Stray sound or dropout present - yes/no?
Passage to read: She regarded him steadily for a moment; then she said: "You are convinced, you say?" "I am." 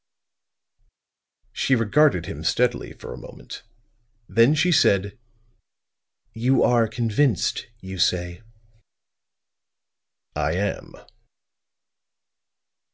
no